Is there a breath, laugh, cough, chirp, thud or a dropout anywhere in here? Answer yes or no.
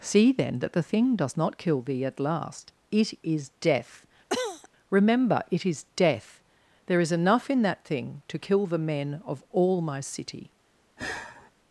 yes